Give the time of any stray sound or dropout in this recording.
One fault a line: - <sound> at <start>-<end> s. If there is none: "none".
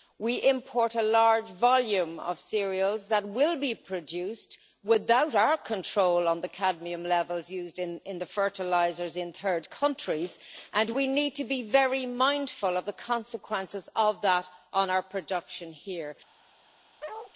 - bark at 17.0-17.3 s